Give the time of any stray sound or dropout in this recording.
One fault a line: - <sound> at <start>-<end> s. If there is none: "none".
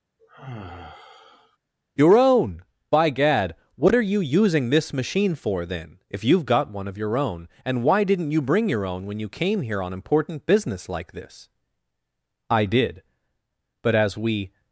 - sigh at 0.2-1.6 s